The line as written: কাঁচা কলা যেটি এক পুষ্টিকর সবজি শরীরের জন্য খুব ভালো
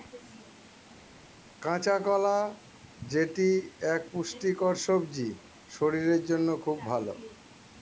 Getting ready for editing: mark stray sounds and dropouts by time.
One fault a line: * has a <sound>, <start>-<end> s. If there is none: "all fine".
all fine